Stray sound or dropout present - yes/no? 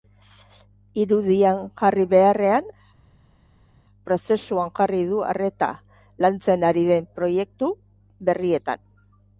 no